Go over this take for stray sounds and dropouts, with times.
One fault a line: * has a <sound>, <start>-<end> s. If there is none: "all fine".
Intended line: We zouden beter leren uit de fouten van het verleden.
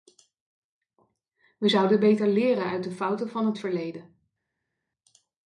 all fine